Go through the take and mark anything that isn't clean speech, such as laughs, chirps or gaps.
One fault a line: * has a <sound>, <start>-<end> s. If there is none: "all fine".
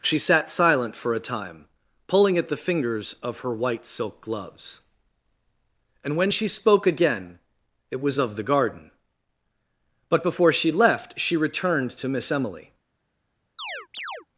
* has a chirp, 13.6-14.3 s